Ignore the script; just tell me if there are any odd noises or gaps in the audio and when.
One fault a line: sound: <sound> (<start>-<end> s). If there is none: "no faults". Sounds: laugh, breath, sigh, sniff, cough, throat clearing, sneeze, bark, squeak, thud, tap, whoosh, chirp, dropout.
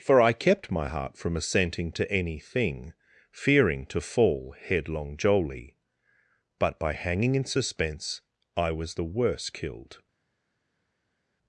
no faults